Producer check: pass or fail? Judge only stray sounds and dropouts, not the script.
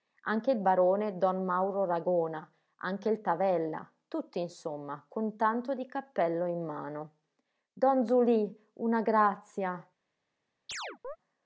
fail